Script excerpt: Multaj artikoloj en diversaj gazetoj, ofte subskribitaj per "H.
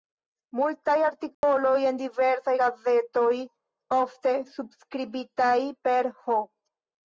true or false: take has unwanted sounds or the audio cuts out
true